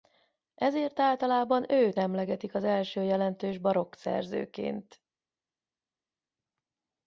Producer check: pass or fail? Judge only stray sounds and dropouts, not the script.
pass